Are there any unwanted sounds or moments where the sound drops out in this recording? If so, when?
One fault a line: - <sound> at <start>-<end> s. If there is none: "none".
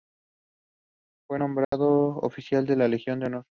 - dropout at 1.6-1.7 s